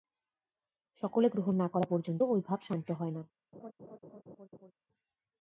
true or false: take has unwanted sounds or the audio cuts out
true